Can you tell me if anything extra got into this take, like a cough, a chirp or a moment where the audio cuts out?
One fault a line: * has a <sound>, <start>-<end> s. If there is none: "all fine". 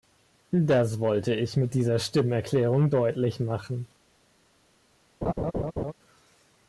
* has a laugh, 5.2-5.9 s